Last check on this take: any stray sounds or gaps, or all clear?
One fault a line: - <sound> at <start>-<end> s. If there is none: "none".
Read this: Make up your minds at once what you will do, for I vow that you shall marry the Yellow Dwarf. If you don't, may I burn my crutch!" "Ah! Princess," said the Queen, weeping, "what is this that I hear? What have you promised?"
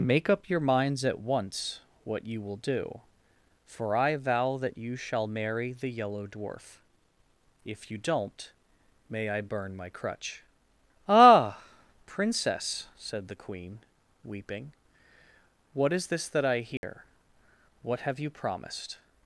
- dropout at 16.8-16.8 s